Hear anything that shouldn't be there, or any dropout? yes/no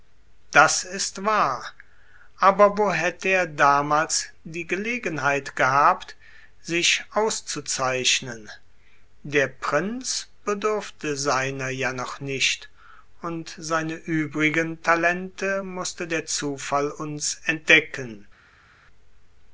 no